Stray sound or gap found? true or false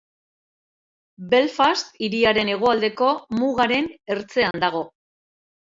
true